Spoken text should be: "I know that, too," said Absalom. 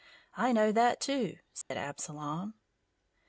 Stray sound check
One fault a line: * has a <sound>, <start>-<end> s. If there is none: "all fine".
* has a dropout, 1.6-1.7 s